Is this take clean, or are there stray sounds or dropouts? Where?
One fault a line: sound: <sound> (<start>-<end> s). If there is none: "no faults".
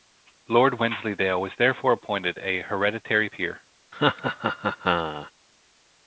sound: laugh (3.9-5.3 s)